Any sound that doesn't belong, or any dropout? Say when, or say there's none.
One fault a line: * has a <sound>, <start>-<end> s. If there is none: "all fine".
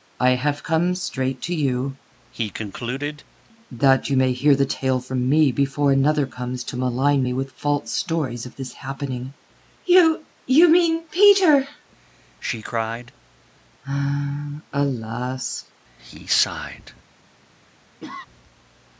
* has a cough, 18.0-18.3 s